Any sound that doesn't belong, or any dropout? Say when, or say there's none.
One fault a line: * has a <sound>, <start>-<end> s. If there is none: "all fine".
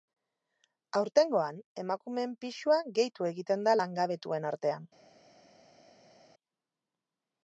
all fine